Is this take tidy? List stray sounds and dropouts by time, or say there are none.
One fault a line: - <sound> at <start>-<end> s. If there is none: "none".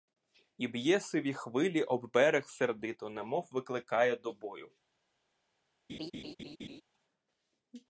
- laugh at 5.9-6.8 s